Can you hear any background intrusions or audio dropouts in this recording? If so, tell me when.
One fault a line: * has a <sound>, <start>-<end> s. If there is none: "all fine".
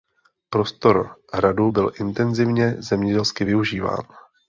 all fine